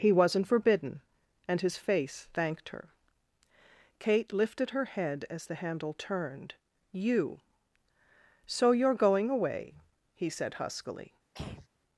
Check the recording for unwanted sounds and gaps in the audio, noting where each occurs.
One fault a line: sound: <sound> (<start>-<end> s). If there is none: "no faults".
sound: throat clearing (11.3-11.7 s)